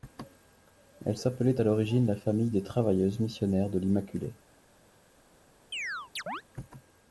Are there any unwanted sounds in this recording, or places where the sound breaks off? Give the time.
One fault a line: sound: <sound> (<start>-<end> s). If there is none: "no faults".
sound: chirp (5.7-6.4 s)